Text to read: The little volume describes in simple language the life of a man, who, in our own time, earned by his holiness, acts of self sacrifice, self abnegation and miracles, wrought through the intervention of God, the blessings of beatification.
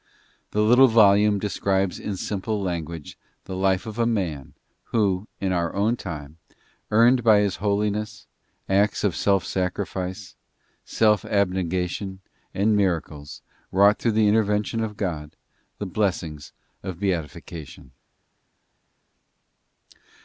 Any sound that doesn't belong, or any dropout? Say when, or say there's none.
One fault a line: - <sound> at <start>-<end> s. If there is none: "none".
none